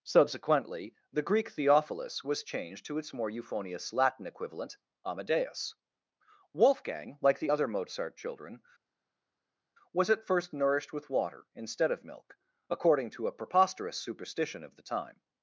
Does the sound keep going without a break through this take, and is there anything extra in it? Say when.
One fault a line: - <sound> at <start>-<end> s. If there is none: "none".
none